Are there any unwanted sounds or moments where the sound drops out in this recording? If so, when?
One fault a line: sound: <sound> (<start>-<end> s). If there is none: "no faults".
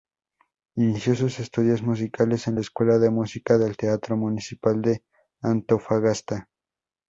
no faults